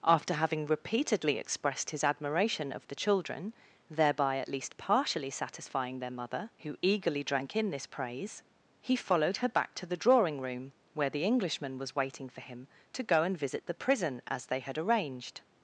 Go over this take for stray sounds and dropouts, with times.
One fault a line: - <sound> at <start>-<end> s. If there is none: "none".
none